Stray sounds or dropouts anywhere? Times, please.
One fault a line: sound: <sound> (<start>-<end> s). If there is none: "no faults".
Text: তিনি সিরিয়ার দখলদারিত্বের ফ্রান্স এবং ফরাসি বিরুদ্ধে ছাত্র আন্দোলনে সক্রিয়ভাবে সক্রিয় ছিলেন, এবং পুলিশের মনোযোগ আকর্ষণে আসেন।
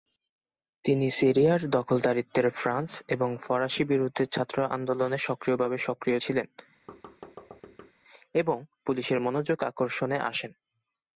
sound: thud (6.9-7.9 s)